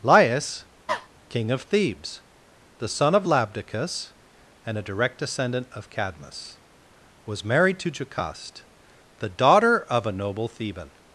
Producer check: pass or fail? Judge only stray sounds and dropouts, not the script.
fail